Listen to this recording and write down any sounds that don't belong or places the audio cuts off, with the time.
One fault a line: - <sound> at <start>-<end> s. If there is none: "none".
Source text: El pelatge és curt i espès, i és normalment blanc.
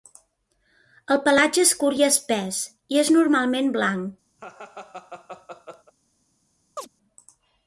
- laugh at 4.4-5.9 s
- chirp at 6.8-6.9 s